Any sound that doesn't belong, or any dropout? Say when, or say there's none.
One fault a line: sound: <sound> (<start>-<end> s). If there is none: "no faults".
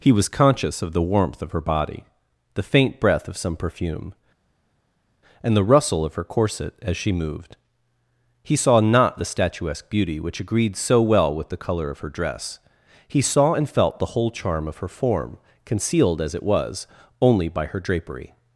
no faults